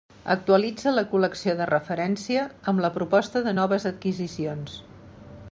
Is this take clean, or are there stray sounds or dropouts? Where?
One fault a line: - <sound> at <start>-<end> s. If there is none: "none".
none